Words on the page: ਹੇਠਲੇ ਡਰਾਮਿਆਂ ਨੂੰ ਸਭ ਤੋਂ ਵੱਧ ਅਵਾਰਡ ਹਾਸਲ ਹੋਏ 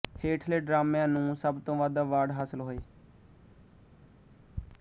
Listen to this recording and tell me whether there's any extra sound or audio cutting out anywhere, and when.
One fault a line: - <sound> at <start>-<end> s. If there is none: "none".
none